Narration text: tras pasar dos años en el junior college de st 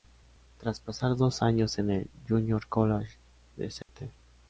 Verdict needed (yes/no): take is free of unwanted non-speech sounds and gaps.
no